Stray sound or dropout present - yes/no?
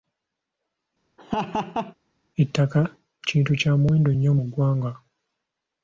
yes